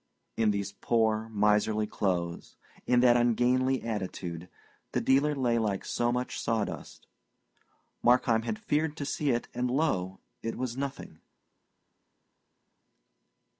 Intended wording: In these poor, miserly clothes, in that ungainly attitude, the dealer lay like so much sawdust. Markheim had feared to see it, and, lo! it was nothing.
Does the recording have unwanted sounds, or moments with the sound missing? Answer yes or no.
no